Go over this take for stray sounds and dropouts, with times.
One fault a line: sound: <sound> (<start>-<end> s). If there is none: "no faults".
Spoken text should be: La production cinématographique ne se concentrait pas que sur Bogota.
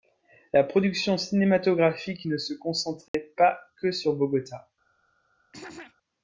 sound: dropout (3.1-3.1 s)
sound: throat clearing (5.5-6.0 s)